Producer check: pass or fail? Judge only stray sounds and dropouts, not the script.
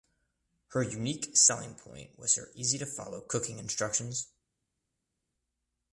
pass